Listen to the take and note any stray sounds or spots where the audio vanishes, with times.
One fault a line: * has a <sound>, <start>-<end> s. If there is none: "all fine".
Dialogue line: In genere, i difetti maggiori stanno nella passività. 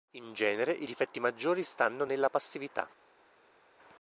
all fine